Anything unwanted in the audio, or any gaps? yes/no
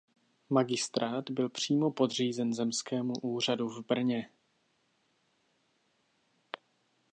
no